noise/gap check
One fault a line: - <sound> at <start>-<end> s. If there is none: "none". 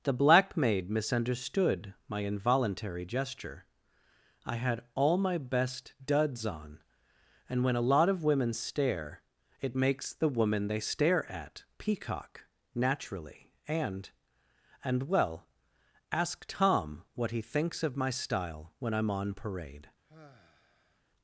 - sigh at 20.0-21.0 s